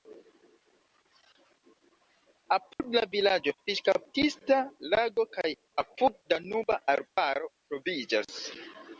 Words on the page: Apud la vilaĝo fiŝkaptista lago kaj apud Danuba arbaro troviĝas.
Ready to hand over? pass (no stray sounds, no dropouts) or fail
fail